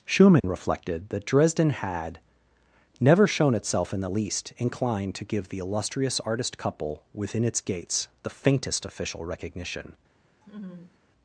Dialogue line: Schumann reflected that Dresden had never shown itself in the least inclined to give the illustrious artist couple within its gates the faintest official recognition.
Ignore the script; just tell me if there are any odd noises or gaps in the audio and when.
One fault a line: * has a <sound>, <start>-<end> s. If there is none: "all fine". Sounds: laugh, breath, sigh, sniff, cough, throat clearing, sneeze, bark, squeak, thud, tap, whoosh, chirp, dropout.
* has a dropout, 0.4-0.4 s
* has a laugh, 10.4-11.0 s